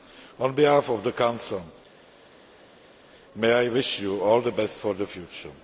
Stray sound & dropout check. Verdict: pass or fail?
pass